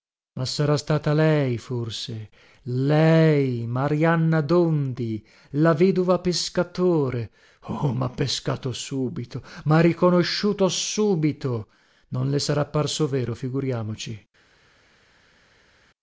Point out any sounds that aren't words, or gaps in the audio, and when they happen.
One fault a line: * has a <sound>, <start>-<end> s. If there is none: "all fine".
all fine